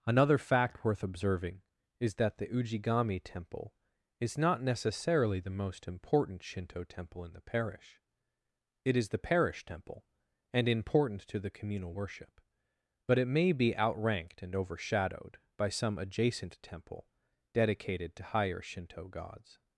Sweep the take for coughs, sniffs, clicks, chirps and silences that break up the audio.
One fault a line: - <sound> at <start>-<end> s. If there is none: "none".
none